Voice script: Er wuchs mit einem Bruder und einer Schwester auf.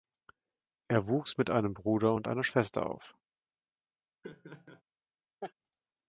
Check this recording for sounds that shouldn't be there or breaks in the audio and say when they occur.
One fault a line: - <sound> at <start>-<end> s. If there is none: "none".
- laugh at 4.2-4.8 s
- laugh at 5.4-5.5 s